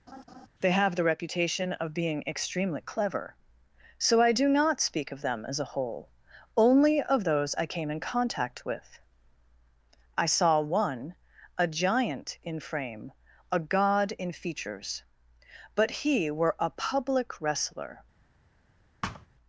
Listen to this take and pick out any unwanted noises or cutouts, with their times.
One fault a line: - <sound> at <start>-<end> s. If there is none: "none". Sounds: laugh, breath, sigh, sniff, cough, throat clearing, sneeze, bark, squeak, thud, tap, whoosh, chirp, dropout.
- laugh at 0.1-0.5 s
- thud at 19.0-19.3 s